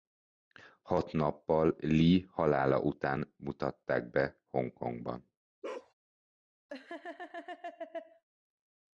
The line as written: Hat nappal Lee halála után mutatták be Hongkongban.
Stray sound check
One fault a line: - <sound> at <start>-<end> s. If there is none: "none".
- bark at 5.6-5.9 s
- laugh at 6.7-8.2 s